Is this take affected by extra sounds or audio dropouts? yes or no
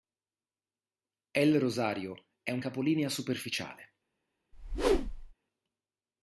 yes